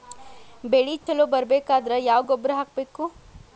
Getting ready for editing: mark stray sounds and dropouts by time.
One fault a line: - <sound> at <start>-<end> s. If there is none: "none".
- dropout at 1.0-1.1 s